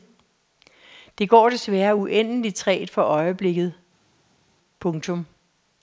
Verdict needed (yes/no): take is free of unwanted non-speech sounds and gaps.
yes